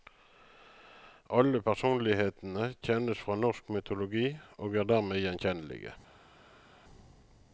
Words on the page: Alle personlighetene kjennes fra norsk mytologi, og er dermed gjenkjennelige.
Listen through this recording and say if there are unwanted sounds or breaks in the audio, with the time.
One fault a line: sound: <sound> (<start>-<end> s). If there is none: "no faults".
no faults